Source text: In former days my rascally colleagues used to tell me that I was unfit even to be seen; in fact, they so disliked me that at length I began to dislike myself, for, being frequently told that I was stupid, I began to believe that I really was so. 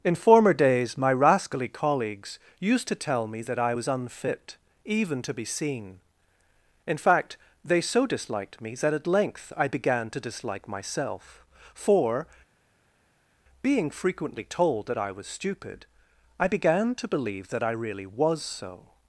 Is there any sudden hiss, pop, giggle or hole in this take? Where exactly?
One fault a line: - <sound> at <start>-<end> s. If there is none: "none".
none